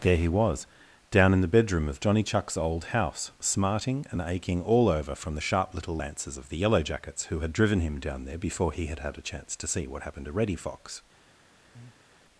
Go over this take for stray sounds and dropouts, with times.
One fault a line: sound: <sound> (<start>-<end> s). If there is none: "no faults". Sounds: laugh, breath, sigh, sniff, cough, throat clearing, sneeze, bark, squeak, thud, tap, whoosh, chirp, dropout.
sound: breath (11.7-12.1 s)